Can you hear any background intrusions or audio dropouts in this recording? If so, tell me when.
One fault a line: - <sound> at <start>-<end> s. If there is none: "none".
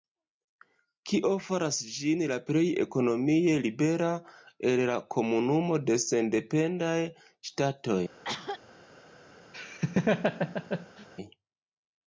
- cough at 8.2-8.6 s
- laugh at 9.5-11.1 s